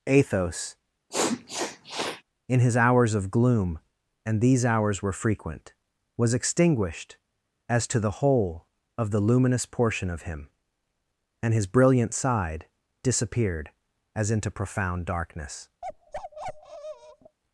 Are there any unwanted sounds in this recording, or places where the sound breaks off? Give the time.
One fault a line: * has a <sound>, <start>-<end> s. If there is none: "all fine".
* has a sniff, 1.1-2.2 s
* has a bark, 15.8-17.4 s